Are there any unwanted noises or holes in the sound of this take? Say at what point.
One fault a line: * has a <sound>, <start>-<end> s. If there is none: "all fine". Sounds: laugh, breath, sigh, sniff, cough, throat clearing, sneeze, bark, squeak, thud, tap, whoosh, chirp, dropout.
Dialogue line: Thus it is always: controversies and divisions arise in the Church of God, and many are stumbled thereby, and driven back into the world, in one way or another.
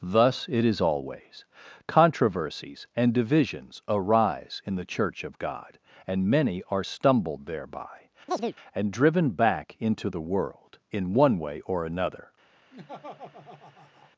* has a chirp, 8.3-8.6 s
* has a laugh, 12.7-14.1 s